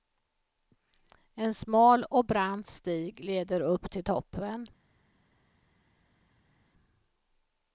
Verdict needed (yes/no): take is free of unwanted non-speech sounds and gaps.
yes